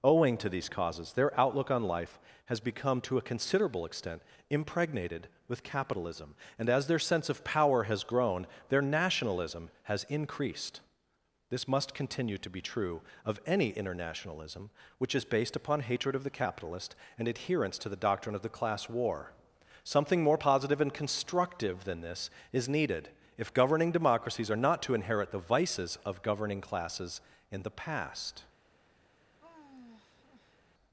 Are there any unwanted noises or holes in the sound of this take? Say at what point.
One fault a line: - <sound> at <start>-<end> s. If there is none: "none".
- sigh at 29.4-30.6 s